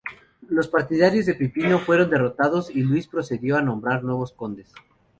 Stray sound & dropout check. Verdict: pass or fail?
pass